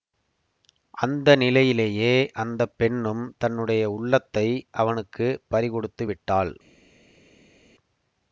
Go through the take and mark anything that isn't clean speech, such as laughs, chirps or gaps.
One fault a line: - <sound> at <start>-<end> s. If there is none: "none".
none